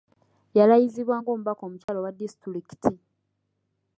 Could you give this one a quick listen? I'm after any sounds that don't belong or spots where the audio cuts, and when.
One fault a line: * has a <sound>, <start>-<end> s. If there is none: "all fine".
* has a dropout, 1.8-1.9 s